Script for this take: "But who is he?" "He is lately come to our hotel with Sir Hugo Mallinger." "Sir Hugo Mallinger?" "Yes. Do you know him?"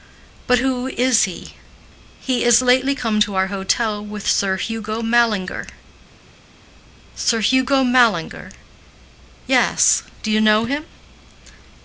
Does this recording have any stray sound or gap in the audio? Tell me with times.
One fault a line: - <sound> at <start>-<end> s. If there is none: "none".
none